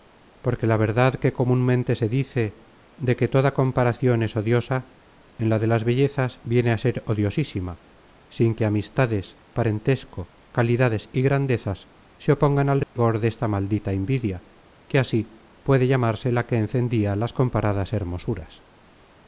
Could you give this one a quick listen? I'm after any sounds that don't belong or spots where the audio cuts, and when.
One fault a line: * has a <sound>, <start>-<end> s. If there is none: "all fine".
* has a dropout, 12.8-13.0 s